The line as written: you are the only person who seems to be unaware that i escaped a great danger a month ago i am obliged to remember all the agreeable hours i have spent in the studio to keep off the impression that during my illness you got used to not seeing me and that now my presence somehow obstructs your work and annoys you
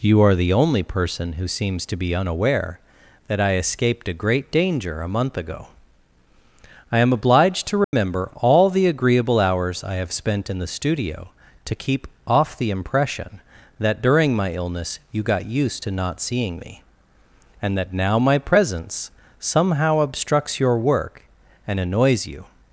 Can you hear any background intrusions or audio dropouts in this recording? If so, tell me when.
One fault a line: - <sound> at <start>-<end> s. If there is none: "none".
- dropout at 7.8-7.9 s